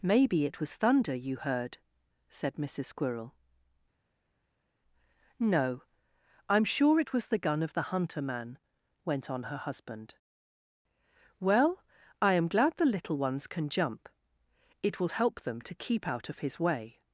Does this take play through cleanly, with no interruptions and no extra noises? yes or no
yes